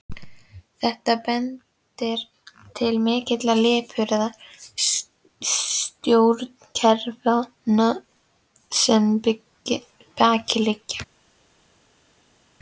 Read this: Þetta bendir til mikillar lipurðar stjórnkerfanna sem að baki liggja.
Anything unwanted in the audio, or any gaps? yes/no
no